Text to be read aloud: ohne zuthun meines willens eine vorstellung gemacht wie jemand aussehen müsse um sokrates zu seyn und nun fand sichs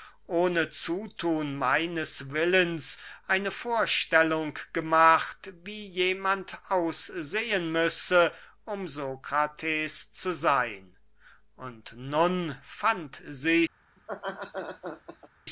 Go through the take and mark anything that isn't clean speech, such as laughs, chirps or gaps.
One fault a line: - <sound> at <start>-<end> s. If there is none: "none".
- laugh at 14.0-15.3 s